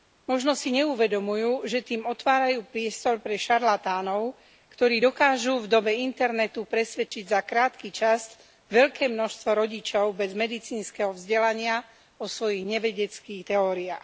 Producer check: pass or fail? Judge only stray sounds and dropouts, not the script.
fail